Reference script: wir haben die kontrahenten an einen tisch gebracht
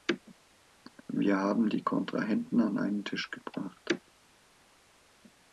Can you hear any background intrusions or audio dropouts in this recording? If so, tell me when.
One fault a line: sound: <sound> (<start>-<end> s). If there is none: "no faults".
no faults